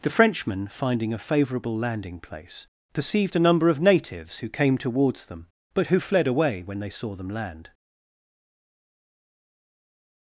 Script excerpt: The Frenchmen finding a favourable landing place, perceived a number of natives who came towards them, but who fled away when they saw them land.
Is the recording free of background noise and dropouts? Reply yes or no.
yes